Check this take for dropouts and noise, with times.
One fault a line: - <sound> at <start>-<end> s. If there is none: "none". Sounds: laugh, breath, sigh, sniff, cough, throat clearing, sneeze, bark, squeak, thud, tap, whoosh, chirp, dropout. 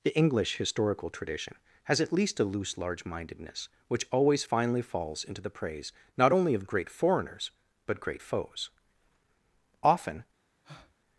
- breath at 10.6-10.9 s